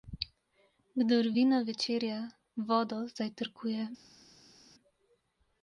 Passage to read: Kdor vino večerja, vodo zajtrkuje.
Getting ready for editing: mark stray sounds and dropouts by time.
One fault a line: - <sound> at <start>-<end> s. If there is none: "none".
none